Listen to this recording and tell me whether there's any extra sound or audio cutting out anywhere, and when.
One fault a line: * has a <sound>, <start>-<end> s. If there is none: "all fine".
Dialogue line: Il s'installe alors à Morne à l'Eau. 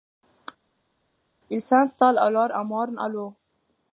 all fine